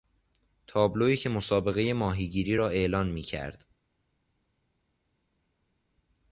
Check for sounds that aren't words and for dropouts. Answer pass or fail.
pass